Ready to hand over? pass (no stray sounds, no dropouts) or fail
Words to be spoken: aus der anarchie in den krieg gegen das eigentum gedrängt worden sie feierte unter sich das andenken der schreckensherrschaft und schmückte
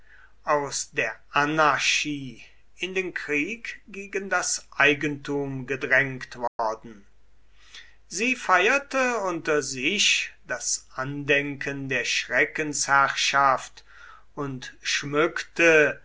fail